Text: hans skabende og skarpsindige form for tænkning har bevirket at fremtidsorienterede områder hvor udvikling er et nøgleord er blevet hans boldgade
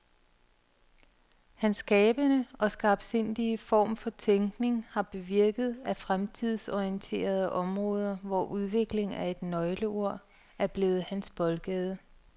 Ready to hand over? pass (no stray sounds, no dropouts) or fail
pass